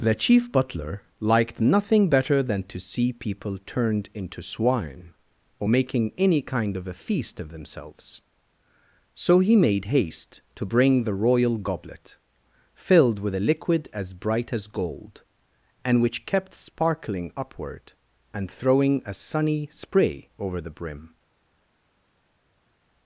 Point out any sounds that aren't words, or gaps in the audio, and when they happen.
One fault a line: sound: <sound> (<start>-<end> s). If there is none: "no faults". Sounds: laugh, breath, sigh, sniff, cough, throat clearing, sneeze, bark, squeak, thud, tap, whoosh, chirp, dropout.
no faults